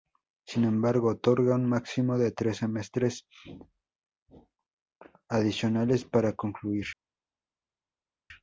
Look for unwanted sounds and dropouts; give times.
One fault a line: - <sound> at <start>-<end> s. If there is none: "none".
none